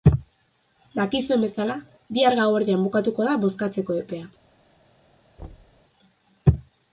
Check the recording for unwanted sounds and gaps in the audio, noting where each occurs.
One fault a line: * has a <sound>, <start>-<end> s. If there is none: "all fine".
* has a thud, 5.4-5.8 s